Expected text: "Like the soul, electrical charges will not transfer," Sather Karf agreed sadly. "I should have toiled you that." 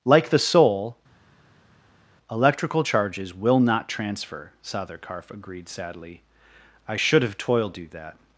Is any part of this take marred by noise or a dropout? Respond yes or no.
no